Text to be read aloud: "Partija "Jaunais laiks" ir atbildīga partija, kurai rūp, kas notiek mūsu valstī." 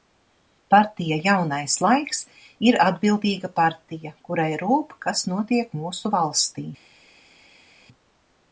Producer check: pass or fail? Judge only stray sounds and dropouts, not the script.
pass